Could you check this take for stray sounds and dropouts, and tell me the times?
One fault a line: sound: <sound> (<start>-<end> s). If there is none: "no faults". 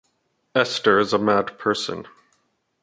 no faults